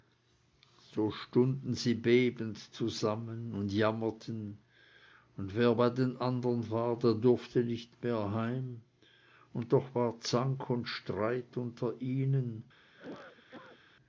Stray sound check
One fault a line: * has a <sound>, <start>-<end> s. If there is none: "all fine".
* has a cough, 12.8-13.8 s